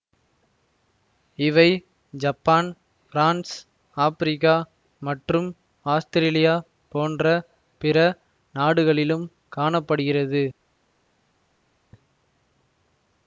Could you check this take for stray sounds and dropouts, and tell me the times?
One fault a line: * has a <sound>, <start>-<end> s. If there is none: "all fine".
all fine